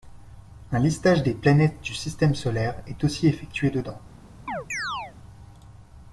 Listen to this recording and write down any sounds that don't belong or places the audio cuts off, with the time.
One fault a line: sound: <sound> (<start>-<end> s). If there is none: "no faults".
sound: chirp (4.5-5.1 s)